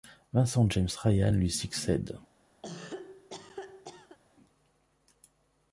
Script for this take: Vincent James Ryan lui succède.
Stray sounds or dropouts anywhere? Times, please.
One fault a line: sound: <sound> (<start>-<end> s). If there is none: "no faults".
sound: cough (2.6-4.2 s)